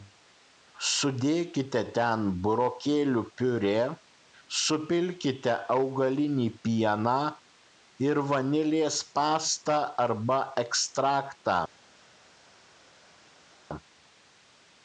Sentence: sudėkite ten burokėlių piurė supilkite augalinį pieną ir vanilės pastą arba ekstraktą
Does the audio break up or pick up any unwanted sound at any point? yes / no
no